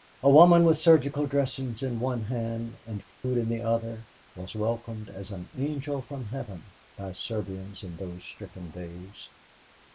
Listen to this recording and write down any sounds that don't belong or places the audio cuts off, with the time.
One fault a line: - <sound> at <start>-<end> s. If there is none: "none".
- dropout at 3.1-3.2 s